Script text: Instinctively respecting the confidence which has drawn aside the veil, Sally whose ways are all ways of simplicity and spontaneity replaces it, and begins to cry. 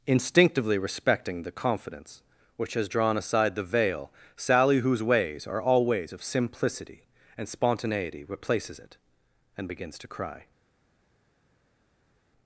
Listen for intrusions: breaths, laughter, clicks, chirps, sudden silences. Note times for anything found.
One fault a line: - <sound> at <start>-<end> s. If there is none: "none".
none